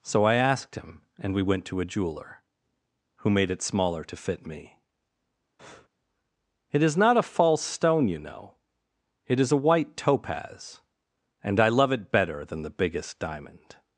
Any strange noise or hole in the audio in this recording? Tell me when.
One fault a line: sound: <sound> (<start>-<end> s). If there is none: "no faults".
sound: breath (5.6-5.9 s)